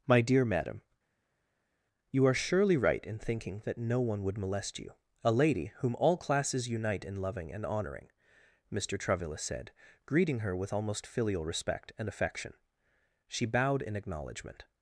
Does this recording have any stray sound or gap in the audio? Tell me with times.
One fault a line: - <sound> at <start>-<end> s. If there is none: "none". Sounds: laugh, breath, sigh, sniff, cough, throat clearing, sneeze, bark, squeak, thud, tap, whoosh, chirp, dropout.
none